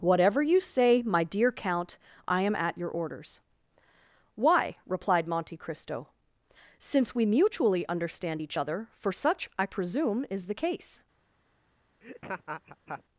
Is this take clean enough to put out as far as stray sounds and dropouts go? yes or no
no